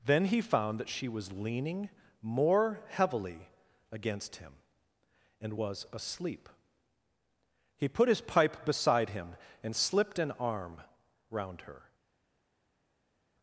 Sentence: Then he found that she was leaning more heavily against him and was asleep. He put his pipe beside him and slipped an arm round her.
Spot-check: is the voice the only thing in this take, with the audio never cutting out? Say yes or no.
yes